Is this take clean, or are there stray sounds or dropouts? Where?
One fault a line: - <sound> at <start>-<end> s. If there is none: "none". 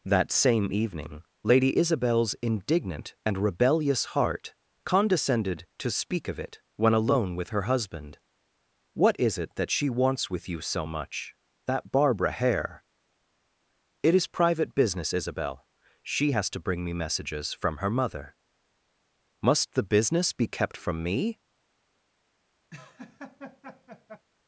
- laugh at 22.7-24.3 s